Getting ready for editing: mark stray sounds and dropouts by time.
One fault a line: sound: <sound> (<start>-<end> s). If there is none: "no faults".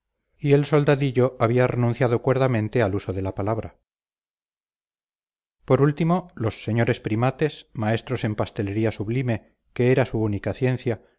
no faults